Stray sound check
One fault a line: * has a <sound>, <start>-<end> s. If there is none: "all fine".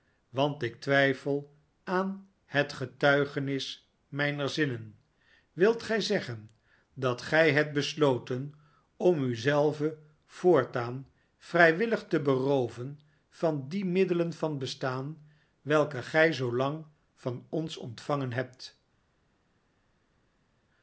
all fine